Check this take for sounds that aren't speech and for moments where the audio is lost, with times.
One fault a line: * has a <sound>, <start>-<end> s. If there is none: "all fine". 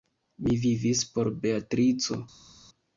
all fine